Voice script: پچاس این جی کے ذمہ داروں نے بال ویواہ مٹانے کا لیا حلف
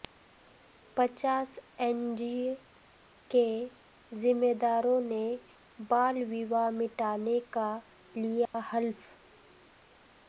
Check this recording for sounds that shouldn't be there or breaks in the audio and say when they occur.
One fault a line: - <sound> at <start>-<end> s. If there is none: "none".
- dropout at 8.5-8.5 s